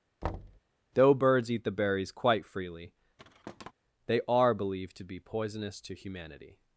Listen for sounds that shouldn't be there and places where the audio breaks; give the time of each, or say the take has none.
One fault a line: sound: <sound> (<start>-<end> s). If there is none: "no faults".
sound: thud (0.2-0.6 s)
sound: thud (3.2-3.7 s)